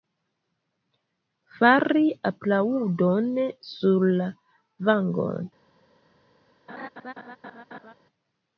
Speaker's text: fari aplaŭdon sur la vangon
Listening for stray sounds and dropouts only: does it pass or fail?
fail